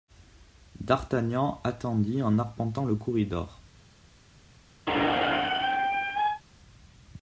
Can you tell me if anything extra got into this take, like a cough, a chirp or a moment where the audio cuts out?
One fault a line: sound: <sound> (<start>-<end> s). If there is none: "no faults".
sound: squeak (4.9-6.4 s)